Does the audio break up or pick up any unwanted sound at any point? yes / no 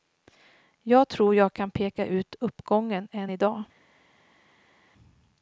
no